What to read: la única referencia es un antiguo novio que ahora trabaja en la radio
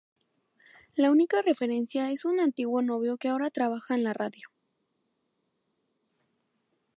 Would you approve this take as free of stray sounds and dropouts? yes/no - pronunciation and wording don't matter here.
yes